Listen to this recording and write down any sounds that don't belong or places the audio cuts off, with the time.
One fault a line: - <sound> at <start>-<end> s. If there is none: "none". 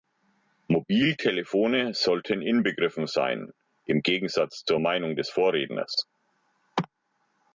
none